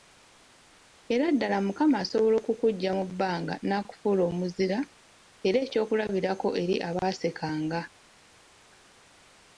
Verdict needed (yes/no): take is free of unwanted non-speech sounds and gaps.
yes